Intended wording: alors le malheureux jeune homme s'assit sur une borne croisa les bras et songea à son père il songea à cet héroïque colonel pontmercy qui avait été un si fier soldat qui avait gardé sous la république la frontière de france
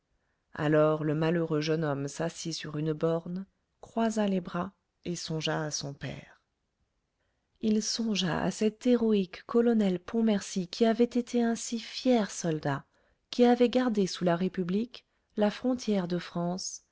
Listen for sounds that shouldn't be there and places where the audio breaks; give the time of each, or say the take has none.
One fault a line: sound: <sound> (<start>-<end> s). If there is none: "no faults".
no faults